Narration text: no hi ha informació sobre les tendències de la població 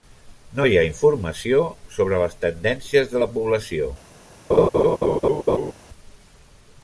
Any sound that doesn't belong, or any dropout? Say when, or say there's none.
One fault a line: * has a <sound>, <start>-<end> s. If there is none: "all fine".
* has a laugh, 4.5-5.7 s